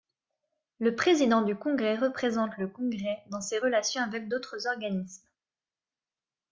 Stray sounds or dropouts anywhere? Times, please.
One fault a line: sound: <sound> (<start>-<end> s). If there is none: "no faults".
no faults